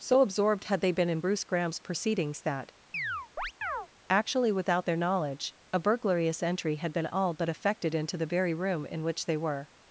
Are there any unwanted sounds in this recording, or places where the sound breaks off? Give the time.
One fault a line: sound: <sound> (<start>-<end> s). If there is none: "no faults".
sound: chirp (2.9-3.9 s)